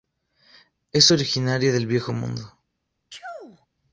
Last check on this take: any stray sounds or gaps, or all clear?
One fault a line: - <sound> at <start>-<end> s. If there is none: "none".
- sneeze at 3.1-3.7 s